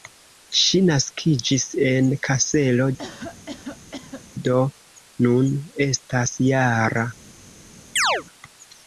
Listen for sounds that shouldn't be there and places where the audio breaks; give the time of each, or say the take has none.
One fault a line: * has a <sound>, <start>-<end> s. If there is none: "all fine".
* has a cough, 3.0-4.3 s
* has a chirp, 8.0-8.2 s